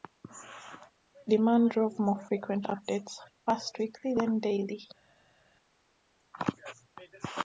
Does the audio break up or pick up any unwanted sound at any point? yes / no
no